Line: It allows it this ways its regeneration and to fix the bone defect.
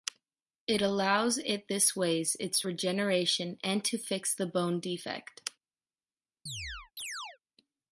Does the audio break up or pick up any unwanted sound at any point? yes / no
yes